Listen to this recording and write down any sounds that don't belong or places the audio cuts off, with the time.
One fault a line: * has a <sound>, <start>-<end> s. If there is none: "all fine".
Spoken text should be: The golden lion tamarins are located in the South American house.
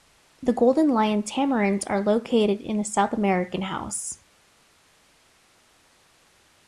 all fine